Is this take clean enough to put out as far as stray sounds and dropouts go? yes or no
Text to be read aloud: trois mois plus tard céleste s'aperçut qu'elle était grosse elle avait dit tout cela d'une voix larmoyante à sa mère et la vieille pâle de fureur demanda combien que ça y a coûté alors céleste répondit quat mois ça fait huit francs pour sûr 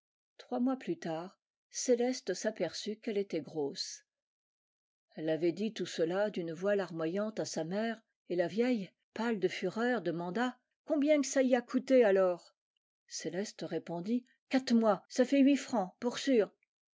yes